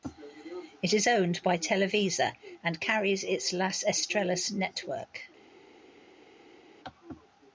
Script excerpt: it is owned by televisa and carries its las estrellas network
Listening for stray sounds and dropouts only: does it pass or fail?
pass